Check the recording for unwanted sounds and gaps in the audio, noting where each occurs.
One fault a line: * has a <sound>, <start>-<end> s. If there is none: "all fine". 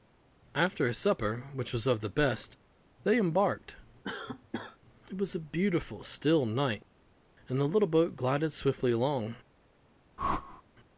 * has a cough, 4.0-4.8 s
* has a whoosh, 10.2-10.6 s